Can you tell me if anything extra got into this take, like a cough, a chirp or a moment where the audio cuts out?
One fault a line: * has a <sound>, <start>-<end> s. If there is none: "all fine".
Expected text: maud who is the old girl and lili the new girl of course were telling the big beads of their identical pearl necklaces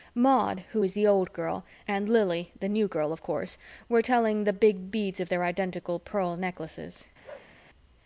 * has a bark, 7.2-7.5 s